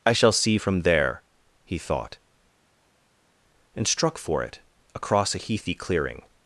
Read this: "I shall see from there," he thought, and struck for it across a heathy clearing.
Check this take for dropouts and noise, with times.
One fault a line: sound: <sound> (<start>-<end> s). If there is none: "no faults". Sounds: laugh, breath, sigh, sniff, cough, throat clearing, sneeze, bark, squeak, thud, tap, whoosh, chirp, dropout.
no faults